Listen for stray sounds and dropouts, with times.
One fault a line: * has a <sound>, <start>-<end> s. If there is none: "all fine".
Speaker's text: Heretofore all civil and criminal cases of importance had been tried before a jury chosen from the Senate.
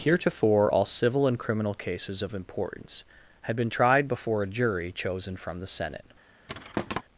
* has a thud, 6.5-7.0 s